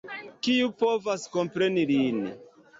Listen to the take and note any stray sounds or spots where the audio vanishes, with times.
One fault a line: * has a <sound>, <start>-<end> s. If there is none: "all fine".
all fine